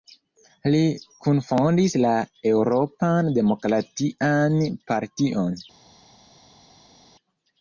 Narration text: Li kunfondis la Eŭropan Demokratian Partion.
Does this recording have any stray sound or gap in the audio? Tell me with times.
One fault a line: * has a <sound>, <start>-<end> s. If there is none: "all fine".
all fine